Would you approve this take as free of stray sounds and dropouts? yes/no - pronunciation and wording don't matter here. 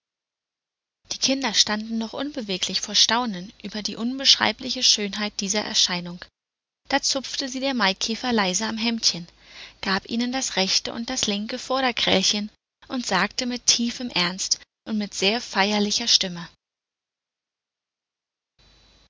yes